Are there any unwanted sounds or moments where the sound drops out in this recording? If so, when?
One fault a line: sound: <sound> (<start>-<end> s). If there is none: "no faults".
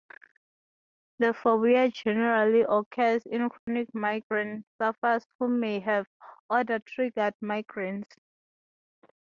sound: dropout (3.6-3.7 s)